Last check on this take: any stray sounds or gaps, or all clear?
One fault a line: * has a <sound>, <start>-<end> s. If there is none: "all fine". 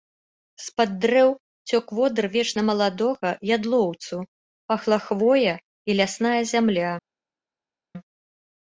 all fine